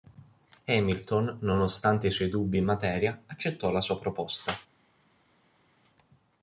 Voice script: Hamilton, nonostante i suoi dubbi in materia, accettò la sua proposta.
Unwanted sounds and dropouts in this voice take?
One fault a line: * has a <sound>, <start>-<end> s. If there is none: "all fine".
all fine